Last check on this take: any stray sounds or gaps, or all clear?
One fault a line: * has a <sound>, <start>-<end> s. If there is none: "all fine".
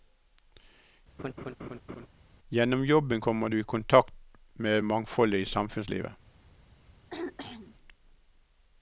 * has a laugh, 1.2-2.1 s
* has a throat clearing, 7.1-7.8 s